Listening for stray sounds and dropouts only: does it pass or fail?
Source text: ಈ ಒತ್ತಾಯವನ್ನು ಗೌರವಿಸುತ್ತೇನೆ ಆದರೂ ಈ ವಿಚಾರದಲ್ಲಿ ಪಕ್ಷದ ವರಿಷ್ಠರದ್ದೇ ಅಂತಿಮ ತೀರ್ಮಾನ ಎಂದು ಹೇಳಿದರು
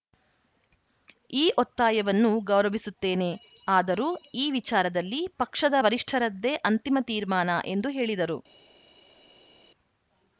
pass